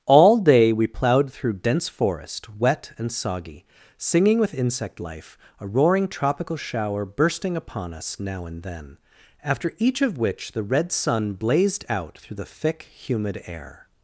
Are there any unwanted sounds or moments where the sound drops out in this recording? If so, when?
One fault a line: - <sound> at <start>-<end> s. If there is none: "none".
none